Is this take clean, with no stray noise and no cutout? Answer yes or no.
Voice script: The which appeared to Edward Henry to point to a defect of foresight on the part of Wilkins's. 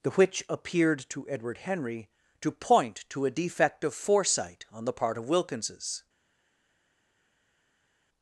yes